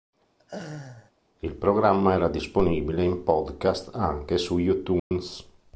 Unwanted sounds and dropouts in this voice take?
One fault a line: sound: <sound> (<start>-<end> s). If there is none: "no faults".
sound: laugh (0.4-1.1 s)
sound: dropout (5.0-5.1 s)